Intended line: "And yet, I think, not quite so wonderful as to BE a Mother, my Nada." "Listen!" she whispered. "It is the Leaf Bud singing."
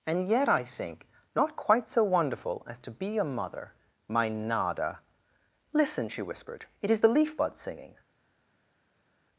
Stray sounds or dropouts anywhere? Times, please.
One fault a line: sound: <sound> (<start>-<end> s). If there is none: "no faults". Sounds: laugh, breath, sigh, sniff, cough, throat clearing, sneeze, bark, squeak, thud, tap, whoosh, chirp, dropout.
no faults